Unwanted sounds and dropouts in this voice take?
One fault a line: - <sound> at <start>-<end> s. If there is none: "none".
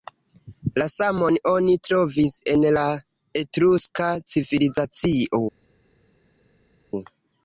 none